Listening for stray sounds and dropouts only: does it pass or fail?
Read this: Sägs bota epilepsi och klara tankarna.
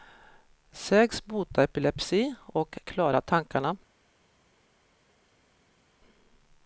pass